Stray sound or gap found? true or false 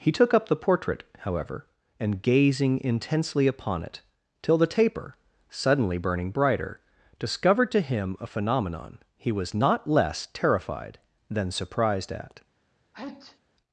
true